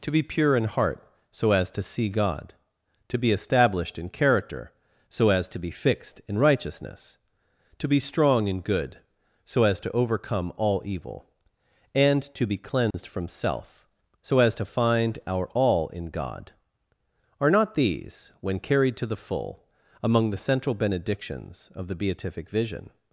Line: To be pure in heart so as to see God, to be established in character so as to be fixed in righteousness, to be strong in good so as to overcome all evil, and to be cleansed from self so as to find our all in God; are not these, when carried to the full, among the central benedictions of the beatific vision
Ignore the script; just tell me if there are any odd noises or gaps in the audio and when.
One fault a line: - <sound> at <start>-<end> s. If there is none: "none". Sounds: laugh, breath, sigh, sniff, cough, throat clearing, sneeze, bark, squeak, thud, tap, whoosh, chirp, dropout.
- dropout at 12.9-12.9 s